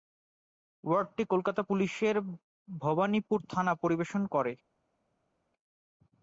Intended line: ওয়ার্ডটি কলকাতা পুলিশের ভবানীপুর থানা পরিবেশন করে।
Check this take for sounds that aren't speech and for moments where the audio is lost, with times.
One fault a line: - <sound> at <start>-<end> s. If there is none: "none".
none